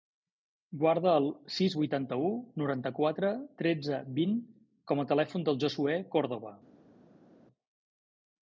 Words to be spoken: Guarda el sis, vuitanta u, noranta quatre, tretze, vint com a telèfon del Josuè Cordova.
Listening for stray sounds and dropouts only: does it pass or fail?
pass